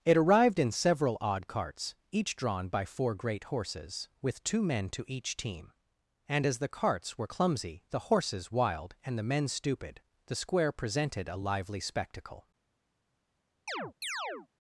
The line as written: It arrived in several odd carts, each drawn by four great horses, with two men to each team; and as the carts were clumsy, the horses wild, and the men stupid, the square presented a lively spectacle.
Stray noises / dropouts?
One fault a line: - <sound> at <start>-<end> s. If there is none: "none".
- chirp at 13.7-14.5 s